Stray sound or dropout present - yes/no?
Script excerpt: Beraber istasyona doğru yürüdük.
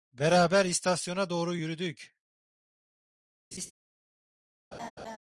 yes